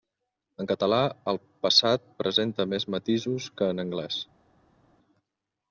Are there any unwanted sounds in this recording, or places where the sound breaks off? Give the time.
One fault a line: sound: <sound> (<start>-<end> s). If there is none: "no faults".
no faults